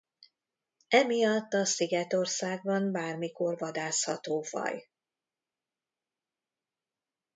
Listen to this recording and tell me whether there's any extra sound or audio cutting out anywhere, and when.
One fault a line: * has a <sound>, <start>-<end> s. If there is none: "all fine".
all fine